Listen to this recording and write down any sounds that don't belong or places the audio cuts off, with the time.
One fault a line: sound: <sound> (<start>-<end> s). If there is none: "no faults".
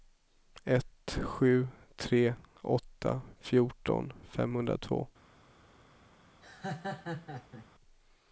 sound: laugh (6.4-7.7 s)